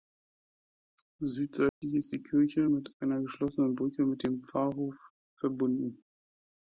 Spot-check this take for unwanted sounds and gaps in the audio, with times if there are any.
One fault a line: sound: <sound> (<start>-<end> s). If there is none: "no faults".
sound: dropout (1.7-1.8 s)